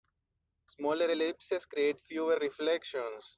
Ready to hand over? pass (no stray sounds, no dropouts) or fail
pass